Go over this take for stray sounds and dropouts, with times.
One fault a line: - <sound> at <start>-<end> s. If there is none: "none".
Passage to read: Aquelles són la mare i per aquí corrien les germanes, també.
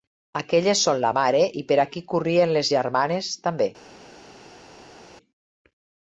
none